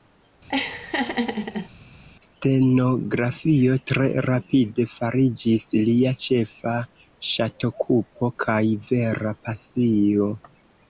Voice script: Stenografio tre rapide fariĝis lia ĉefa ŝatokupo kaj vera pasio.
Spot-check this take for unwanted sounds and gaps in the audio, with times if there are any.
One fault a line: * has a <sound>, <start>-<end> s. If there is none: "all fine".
* has a laugh, 0.5-1.7 s